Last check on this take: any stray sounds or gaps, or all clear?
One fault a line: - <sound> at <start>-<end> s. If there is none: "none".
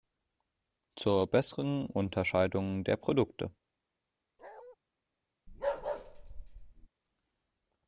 - bark at 4.4-4.8 s
- bark at 5.5-6.9 s